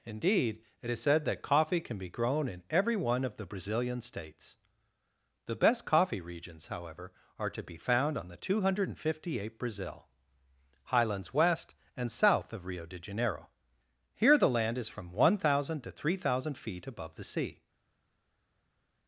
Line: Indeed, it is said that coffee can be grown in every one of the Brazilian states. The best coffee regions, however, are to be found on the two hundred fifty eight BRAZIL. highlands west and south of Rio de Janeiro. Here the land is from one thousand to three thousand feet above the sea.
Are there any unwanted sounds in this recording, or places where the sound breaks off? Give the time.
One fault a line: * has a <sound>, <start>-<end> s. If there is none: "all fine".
all fine